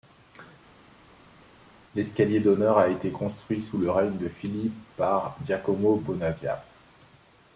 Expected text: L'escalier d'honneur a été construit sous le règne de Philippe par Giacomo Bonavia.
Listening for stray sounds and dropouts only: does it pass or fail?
pass